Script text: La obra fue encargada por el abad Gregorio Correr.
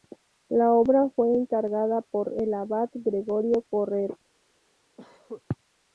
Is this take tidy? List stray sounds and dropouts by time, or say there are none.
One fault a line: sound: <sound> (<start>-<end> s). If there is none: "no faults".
sound: cough (5.0-5.4 s)